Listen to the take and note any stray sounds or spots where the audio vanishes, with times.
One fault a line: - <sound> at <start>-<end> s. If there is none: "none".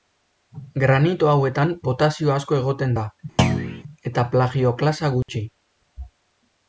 - thud at 3.4-3.8 s
- dropout at 5.2-5.3 s